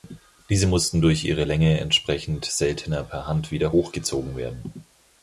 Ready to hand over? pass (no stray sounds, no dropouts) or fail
pass